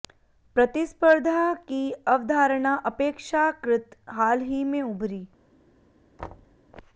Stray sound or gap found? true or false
true